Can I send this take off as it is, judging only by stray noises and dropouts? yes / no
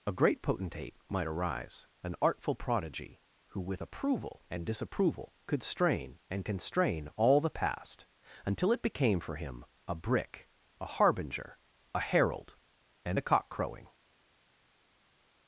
yes